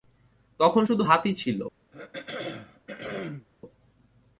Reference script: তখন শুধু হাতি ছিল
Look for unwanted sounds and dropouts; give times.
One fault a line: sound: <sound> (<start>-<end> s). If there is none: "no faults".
sound: throat clearing (1.9-3.5 s)